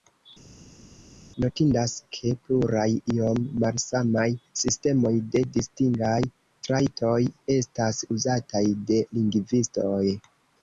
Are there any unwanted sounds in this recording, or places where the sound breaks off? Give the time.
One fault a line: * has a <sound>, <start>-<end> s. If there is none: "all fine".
all fine